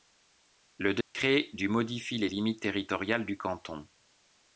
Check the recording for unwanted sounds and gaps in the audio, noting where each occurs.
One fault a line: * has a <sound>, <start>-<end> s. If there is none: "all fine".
* has a dropout, 1.0-1.1 s